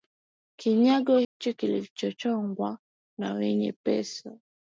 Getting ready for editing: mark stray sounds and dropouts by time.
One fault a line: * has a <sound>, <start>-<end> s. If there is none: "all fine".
* has a dropout, 1.2-1.4 s